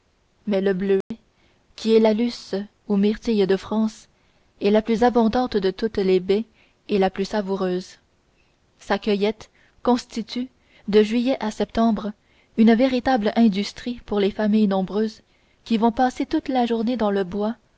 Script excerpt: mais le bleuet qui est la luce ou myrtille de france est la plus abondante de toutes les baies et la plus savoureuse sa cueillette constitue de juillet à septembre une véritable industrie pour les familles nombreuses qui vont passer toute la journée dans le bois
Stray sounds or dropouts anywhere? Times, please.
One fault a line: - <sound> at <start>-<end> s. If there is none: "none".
- dropout at 1.0-1.1 s